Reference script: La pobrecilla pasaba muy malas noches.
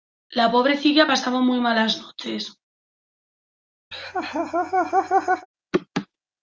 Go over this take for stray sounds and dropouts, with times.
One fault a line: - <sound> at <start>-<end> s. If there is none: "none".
- laugh at 3.9-5.5 s